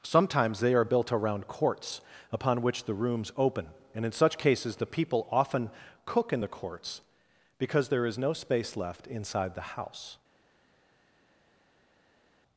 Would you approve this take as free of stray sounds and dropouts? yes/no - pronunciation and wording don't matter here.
yes